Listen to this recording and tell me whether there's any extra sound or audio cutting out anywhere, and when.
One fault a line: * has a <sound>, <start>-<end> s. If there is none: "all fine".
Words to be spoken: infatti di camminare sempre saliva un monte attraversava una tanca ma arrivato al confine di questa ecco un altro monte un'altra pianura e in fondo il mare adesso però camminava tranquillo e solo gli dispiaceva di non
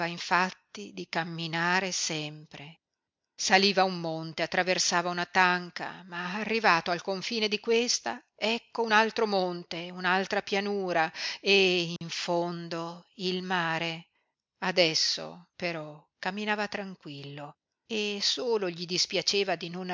* has a dropout, 12.0-12.0 s